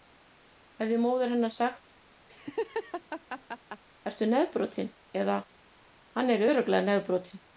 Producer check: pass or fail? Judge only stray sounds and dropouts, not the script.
fail